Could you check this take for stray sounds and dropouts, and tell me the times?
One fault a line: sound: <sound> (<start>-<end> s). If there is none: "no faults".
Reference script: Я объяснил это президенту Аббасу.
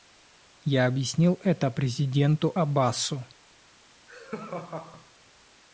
sound: laugh (4.1-5.1 s)